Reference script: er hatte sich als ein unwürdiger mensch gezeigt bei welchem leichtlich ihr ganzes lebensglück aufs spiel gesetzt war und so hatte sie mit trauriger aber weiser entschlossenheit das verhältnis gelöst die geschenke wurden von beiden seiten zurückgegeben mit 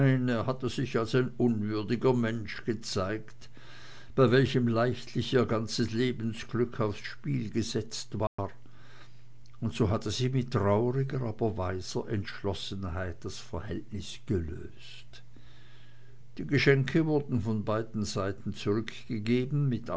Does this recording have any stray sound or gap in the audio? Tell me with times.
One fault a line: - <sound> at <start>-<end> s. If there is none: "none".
- dropout at 8.3-8.4 s